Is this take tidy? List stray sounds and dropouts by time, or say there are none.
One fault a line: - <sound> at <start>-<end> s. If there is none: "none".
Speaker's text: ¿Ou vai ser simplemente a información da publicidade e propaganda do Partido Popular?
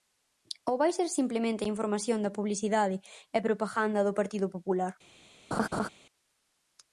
- laugh at 5.5-5.9 s